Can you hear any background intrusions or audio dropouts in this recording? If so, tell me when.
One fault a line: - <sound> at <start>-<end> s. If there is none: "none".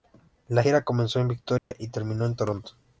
- dropout at 1.6-1.7 s